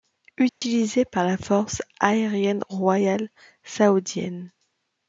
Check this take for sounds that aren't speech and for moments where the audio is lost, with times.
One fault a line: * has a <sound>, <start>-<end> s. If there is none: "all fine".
* has a dropout, 0.5-0.6 s